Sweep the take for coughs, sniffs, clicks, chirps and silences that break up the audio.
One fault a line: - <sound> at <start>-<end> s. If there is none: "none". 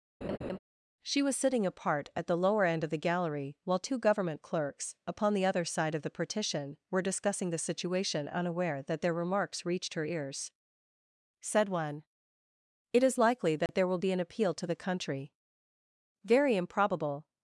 - laugh at 0.2-0.6 s
- dropout at 13.7-13.7 s